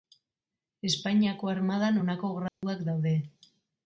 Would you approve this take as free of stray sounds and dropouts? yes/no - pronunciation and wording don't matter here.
no